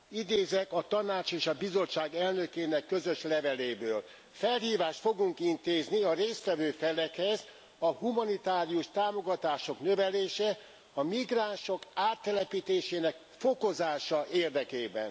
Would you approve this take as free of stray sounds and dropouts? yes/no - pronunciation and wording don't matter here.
yes